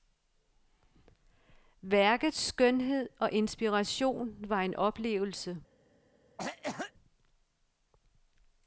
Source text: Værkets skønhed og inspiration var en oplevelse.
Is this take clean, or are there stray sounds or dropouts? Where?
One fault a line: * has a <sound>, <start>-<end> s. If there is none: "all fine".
* has a cough, 6.4-6.9 s